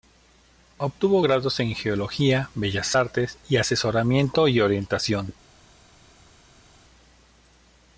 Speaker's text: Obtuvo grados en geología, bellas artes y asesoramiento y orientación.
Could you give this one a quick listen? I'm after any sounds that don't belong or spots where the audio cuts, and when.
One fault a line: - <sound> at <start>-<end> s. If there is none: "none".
none